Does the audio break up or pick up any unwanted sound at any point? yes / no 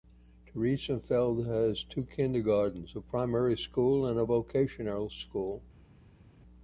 no